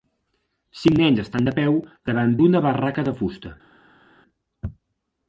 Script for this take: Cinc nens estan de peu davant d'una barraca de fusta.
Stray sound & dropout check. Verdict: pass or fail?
pass